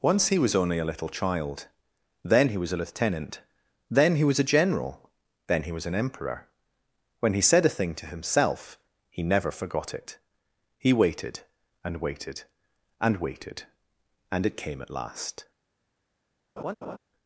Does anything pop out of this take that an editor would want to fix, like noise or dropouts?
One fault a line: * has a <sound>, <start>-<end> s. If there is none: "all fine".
* has a laugh, 16.6-17.0 s